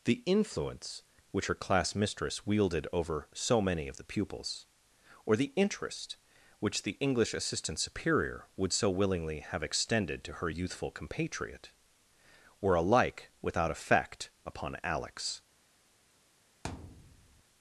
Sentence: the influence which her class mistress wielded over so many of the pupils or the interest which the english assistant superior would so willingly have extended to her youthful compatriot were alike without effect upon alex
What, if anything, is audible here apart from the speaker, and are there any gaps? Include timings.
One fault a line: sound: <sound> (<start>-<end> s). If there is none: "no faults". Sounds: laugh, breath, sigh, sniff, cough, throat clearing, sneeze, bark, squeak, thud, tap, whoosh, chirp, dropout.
sound: thud (16.6-17.4 s)